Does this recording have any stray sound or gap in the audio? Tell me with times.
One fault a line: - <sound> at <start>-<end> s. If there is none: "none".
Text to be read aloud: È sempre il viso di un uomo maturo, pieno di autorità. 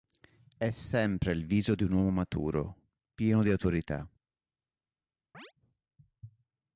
- chirp at 5.3-5.5 s